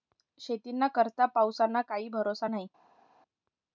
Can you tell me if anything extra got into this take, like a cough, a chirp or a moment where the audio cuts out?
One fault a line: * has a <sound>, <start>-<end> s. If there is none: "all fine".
all fine